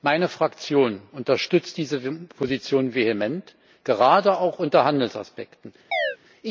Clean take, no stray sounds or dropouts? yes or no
no